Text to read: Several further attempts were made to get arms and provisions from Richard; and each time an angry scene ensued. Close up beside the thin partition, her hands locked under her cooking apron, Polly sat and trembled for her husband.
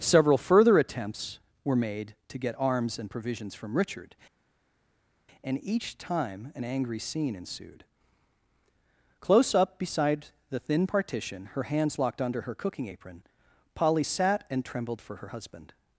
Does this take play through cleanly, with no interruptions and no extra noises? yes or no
yes